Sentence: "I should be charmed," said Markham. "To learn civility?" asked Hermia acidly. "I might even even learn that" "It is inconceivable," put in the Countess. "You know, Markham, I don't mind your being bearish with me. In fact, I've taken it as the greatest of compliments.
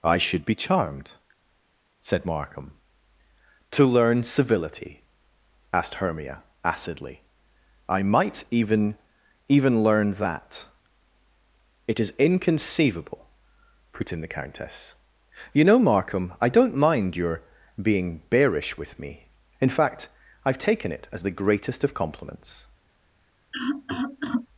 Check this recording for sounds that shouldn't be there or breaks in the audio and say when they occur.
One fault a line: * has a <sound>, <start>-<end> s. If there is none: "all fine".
* has a cough, 23.5-24.5 s